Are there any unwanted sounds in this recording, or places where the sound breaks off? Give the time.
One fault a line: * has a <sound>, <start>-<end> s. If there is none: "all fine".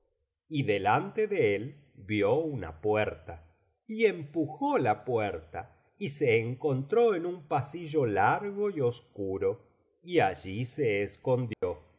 * has a dropout, 11.5-11.6 s